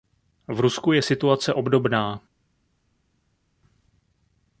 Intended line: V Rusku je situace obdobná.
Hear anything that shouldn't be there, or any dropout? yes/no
no